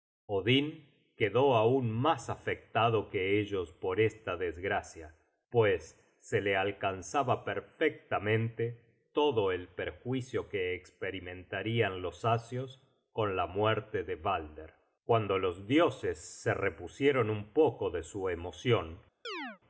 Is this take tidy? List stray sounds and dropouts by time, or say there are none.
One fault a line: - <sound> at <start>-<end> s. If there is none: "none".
- chirp at 19.2-19.6 s